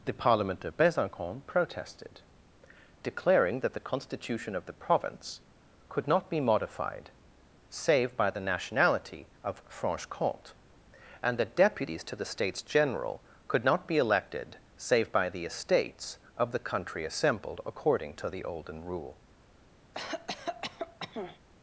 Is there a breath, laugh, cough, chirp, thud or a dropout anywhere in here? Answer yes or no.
yes